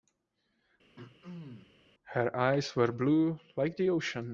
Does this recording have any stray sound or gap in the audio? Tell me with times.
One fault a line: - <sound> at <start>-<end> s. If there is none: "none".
- throat clearing at 1.0-1.7 s